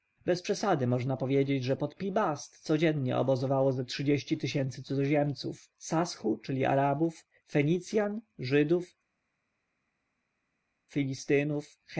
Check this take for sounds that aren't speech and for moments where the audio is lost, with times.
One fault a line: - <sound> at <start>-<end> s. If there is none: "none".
none